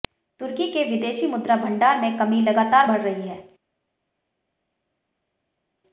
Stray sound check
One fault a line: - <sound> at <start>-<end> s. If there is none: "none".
none